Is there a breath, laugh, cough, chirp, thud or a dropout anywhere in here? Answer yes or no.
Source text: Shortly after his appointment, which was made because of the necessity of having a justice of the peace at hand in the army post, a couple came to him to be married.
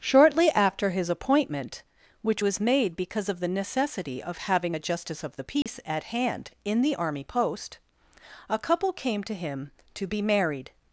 yes